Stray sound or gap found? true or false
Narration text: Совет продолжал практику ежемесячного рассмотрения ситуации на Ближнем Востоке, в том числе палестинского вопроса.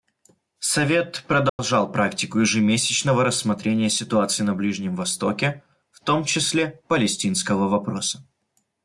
true